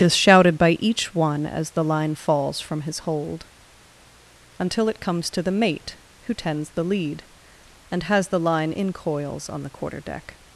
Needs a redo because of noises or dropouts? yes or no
no